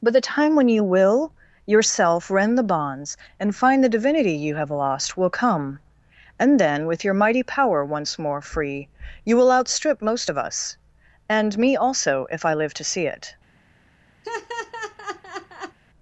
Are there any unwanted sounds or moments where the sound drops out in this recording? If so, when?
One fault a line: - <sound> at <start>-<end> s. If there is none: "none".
- laugh at 14.2-15.8 s